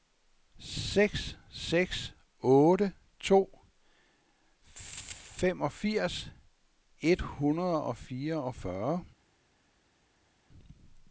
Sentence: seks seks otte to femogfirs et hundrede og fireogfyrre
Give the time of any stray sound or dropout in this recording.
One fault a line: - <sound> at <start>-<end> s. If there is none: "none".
none